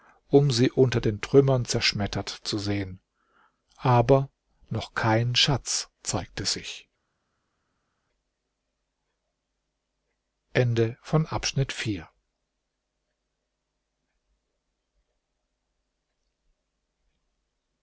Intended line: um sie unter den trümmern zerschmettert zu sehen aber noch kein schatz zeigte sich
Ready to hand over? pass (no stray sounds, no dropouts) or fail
pass